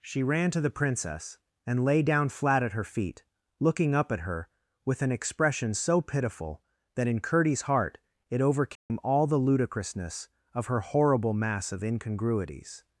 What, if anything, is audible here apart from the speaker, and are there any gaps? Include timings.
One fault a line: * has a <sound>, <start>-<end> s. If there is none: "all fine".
* has a dropout, 8.8-8.9 s